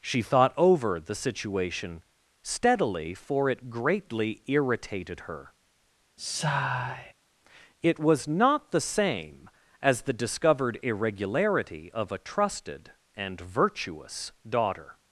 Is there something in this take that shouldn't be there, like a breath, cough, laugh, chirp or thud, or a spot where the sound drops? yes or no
yes